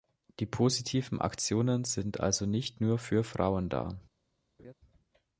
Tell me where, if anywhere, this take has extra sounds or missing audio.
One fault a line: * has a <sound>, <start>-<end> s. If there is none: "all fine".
* has a laugh, 4.6-4.7 s